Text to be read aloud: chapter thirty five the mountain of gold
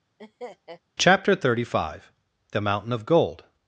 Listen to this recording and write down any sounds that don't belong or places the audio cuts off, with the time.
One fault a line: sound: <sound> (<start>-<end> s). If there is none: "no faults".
sound: laugh (0.2-0.8 s)